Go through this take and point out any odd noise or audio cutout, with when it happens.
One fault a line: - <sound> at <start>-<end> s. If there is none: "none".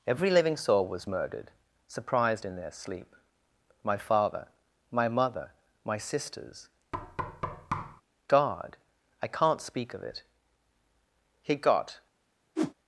- thud at 6.9-8.0 s
- whoosh at 12.6-12.7 s